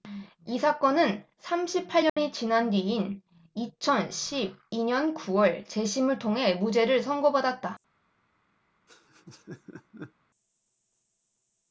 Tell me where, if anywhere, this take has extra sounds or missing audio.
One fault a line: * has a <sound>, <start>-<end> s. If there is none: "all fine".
* has a dropout, 2.1-2.2 s
* has a laugh, 8.9-10.1 s